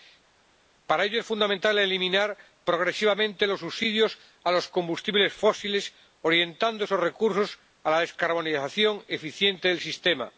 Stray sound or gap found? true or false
false